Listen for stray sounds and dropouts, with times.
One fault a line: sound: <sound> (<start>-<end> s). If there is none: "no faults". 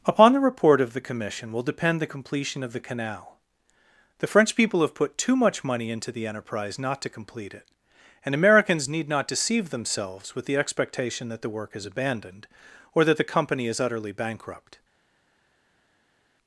no faults